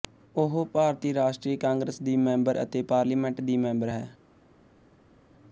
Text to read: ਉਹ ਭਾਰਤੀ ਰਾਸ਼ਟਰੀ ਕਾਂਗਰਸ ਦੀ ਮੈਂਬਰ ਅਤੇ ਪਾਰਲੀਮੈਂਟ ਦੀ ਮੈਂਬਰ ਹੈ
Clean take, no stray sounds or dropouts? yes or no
yes